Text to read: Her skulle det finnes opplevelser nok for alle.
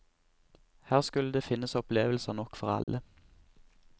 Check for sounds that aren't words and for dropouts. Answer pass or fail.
fail